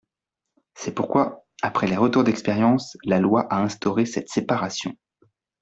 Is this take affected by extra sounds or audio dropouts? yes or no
no